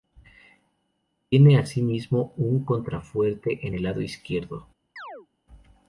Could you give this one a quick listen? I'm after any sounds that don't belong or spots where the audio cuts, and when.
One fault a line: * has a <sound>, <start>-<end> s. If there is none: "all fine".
* has a chirp, 5.0-5.3 s